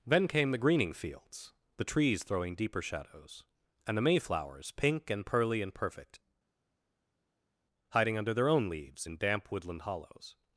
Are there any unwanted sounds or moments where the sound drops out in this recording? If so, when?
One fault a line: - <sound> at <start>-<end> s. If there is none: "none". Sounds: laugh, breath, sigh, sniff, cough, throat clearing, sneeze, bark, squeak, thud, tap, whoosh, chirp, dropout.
none